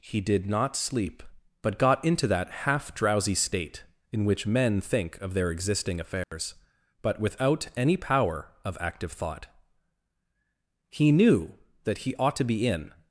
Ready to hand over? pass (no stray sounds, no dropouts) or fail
fail